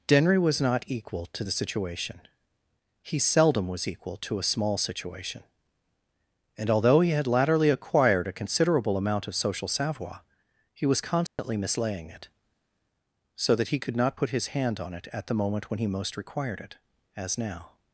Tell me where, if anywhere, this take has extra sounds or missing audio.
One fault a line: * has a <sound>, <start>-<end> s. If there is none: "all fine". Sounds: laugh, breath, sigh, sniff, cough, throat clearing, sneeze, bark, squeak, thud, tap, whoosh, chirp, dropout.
* has a dropout, 11.3-11.4 s